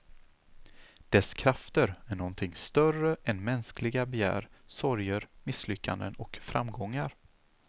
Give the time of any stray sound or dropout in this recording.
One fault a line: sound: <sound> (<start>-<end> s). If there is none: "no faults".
no faults